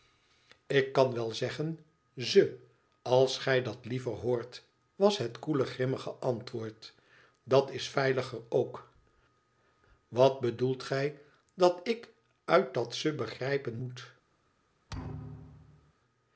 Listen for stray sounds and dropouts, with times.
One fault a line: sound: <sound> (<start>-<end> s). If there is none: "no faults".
sound: thud (14.9-15.9 s)